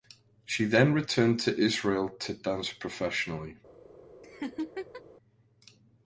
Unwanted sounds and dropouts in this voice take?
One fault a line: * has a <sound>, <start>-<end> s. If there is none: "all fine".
* has a laugh, 4.2-5.0 s